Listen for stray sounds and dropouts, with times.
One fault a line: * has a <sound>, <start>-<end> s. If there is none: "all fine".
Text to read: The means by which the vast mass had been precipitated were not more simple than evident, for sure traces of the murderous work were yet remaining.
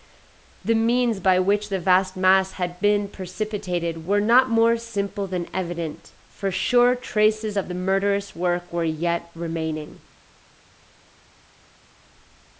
all fine